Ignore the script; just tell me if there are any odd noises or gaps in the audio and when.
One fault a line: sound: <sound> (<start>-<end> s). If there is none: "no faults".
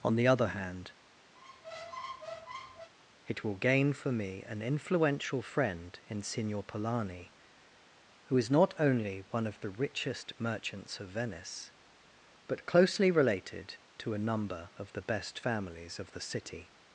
sound: squeak (1.3-2.9 s)